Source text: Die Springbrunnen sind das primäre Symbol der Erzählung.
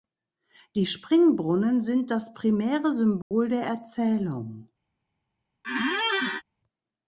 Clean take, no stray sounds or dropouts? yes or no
no